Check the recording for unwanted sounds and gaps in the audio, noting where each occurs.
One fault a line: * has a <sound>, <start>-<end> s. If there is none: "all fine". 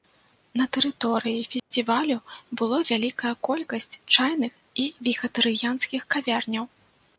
* has a dropout, 1.6-1.7 s